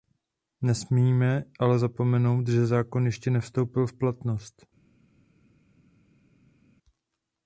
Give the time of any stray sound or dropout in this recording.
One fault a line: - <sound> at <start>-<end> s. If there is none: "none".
none